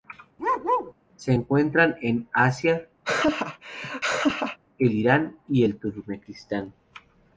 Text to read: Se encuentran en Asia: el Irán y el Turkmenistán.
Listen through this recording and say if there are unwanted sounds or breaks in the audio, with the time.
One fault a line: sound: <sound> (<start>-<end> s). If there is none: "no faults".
sound: bark (0.4-0.9 s)
sound: laugh (3.0-4.6 s)